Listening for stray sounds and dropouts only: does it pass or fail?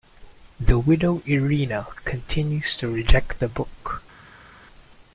pass